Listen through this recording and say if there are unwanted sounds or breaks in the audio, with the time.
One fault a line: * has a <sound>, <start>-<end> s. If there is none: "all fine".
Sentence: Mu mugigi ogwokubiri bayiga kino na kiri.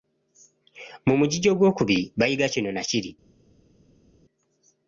all fine